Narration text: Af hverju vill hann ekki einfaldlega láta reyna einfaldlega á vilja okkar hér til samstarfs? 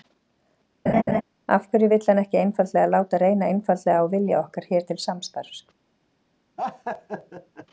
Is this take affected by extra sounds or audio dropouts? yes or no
yes